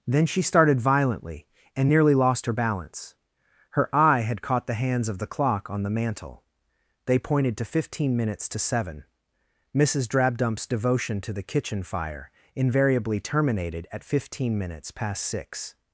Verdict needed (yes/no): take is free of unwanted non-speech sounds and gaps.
yes